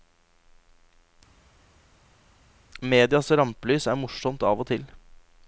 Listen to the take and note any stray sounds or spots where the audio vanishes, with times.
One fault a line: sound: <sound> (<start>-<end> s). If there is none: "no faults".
no faults